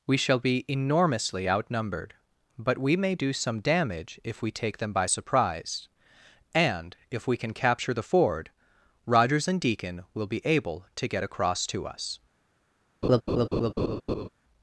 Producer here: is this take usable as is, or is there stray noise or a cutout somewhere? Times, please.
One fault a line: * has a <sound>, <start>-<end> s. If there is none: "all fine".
* has a laugh, 13.0-14.3 s